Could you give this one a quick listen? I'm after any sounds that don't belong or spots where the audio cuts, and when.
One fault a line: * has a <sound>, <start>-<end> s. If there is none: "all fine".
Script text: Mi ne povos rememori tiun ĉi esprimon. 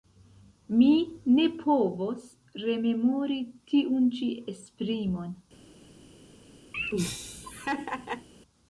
* has a laugh, 6.7-8.3 s